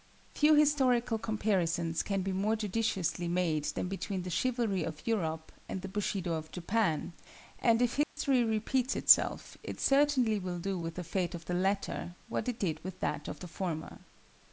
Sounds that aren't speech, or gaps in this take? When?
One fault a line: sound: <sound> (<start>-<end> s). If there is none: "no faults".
sound: dropout (8.0-8.2 s)